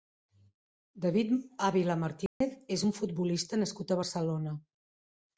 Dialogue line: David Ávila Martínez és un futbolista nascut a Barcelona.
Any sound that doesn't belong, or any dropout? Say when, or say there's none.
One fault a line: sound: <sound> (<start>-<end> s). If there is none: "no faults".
sound: dropout (2.3-2.4 s)